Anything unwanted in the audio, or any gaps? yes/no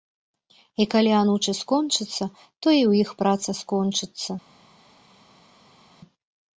no